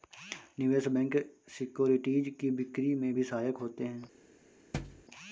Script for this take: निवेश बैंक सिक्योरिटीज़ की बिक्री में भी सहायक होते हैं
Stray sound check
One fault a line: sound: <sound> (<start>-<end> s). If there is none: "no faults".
sound: thud (4.7-5.0 s)